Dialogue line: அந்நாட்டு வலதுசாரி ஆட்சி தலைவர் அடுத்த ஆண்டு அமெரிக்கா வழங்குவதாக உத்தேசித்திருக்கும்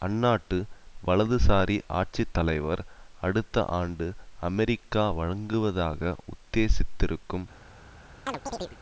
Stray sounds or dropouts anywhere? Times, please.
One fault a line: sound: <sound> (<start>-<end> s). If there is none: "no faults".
sound: chirp (8.3-8.8 s)